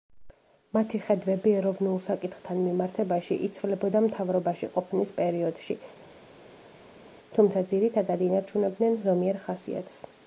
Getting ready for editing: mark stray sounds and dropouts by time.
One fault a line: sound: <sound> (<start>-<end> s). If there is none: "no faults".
no faults